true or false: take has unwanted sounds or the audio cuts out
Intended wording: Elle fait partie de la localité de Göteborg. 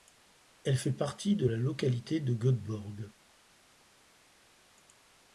false